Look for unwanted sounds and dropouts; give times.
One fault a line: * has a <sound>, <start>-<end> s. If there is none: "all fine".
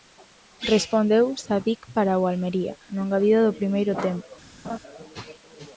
* has a laugh, 4.6-4.8 s